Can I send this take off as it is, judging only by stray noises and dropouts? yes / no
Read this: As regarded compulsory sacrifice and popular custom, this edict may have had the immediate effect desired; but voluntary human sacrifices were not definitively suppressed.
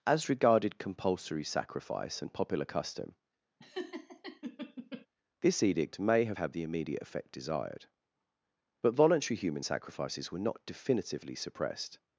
no